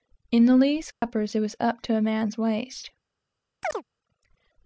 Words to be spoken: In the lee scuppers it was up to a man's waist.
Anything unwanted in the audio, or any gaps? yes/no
yes